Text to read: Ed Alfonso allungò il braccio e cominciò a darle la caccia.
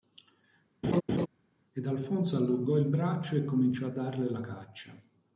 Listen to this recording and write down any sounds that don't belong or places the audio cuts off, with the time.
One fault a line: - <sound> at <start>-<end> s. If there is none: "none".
- laugh at 0.8-1.3 s